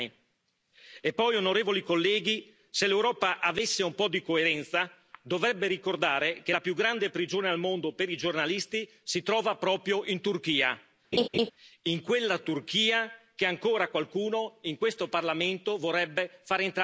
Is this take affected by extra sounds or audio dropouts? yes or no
yes